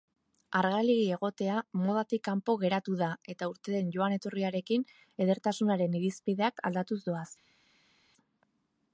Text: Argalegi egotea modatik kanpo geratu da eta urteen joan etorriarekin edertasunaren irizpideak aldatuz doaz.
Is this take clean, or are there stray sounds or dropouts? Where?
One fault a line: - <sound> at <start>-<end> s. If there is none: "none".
none